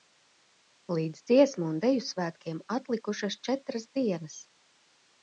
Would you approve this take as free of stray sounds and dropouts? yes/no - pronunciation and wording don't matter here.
yes